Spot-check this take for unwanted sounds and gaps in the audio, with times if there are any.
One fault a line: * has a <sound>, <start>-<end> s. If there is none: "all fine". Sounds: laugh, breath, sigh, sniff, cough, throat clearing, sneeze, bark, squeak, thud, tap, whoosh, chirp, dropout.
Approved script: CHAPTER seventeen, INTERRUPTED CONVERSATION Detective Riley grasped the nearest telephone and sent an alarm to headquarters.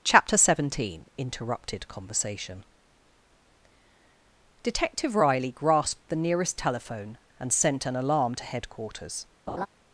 * has a laugh, 9.5-9.7 s